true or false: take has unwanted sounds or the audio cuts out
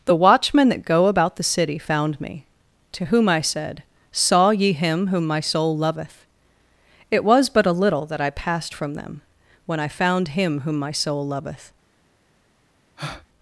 true